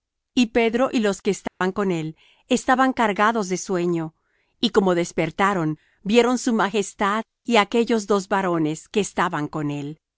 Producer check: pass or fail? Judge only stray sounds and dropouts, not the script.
fail